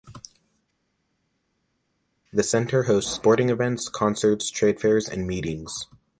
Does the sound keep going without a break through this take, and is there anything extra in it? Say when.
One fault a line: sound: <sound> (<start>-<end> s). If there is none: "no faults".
no faults